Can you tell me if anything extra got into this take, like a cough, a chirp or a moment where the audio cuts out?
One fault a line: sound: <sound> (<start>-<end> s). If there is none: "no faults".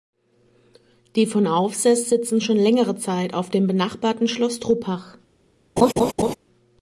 sound: laugh (5.8-6.4 s)